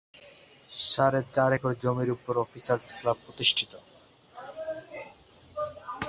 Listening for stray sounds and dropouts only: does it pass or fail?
pass